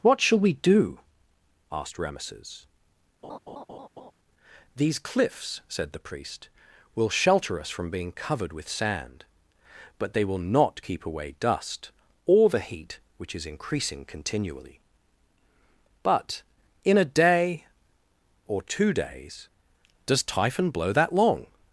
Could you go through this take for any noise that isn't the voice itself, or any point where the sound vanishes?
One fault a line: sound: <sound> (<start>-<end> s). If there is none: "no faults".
sound: laugh (3.2-4.1 s)